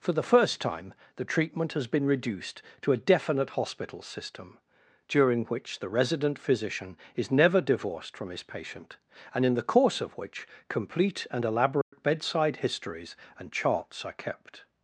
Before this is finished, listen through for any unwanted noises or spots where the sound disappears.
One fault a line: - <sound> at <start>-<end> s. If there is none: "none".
- dropout at 11.8-11.9 s